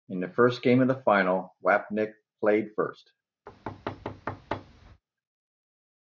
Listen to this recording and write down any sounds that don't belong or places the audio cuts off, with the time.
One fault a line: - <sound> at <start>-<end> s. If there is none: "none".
- thud at 3.5-5.0 s